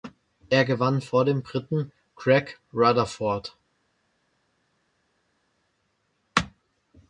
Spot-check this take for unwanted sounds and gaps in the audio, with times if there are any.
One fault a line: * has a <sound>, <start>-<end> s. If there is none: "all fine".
all fine